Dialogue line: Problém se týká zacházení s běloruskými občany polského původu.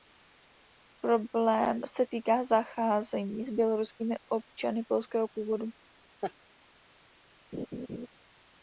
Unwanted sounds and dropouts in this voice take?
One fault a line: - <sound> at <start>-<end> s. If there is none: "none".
- laugh at 6.2-6.3 s
- laugh at 7.5-8.1 s